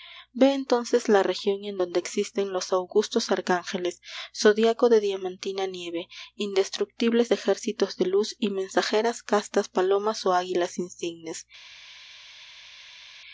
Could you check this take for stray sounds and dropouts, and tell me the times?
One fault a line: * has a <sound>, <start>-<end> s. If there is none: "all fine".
all fine